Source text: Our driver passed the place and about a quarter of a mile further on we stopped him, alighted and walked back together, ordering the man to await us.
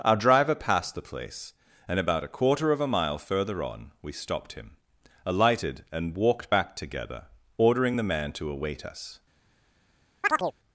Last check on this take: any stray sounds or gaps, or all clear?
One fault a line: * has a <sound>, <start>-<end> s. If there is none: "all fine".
* has a chirp, 10.2-10.5 s